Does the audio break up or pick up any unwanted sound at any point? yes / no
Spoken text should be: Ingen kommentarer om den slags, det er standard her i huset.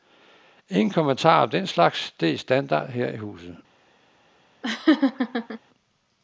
yes